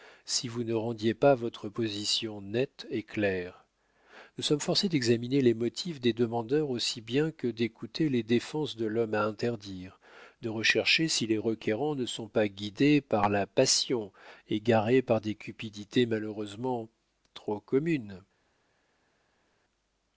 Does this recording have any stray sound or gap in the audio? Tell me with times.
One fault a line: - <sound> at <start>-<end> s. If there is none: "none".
none